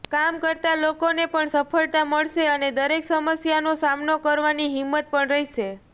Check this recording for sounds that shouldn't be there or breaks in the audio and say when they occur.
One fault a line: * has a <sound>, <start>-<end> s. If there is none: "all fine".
all fine